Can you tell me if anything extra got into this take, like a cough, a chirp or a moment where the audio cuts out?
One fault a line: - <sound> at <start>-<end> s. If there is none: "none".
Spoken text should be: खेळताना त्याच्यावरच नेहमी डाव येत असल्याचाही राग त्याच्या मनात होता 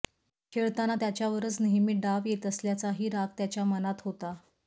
none